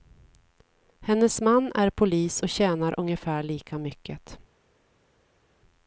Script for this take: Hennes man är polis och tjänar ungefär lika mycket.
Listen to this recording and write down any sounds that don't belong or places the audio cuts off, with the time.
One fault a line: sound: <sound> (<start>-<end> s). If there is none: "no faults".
no faults